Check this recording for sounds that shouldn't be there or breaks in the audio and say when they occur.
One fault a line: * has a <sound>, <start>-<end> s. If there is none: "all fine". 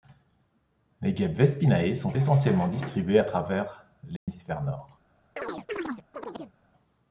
* has a dropout, 4.2-4.3 s
* has a chirp, 5.4-6.5 s